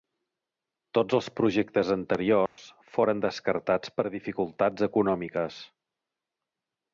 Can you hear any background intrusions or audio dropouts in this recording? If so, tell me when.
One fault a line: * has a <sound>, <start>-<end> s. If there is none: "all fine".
* has a dropout, 2.5-2.6 s